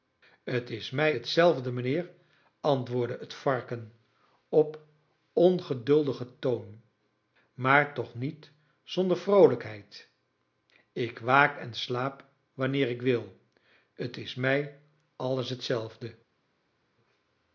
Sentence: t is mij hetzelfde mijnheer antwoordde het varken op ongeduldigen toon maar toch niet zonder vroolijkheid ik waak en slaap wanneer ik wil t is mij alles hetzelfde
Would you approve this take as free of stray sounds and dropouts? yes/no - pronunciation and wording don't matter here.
yes